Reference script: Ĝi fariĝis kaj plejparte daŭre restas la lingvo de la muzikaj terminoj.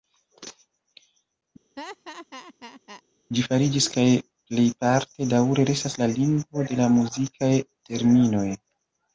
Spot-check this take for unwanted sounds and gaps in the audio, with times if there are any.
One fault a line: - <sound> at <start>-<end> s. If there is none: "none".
- laugh at 1.8-3.0 s